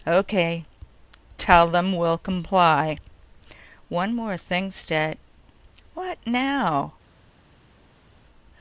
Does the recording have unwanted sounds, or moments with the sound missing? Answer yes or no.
no